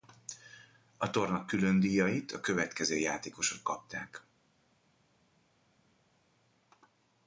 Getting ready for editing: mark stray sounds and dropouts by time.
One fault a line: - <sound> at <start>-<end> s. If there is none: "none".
none